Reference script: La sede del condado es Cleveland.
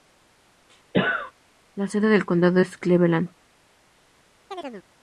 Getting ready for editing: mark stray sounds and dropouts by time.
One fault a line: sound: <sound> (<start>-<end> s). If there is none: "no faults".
sound: cough (0.9-1.3 s)
sound: chirp (4.5-4.9 s)